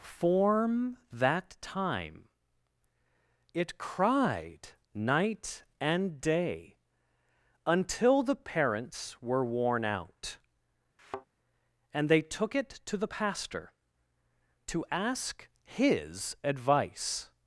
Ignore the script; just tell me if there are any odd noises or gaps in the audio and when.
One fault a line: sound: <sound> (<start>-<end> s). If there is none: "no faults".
sound: thud (11.0-11.3 s)